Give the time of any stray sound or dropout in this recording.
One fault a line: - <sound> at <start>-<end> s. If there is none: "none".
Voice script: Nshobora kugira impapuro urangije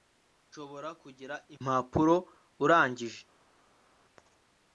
none